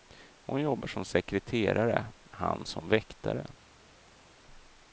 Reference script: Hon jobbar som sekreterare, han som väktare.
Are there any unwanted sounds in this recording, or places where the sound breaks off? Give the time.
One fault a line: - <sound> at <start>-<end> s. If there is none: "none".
none